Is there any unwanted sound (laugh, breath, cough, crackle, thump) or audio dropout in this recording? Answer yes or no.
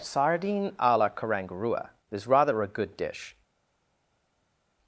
no